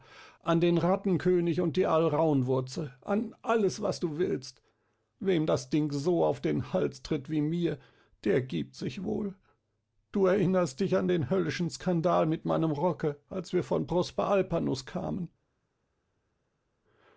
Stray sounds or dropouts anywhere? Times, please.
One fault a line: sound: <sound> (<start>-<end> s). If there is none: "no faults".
no faults